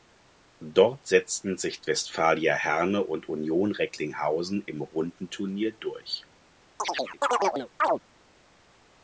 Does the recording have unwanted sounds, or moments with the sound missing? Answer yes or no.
yes